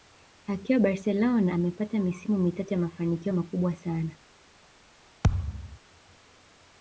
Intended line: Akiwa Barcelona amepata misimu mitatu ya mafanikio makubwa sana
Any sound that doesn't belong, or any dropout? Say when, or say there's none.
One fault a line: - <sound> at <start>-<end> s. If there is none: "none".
- thud at 5.2-5.8 s